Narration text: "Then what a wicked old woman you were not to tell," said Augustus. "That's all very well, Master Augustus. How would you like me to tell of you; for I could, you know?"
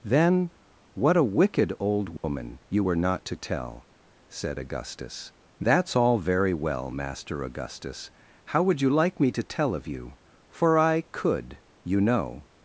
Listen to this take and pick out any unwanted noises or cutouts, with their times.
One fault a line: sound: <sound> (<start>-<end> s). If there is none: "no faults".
sound: dropout (2.2-2.2 s)